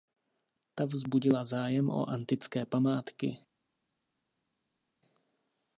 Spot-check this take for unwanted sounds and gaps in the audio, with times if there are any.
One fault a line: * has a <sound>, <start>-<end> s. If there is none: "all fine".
all fine